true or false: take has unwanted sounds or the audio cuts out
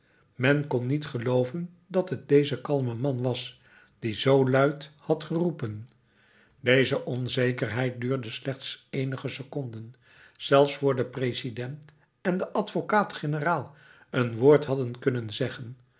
false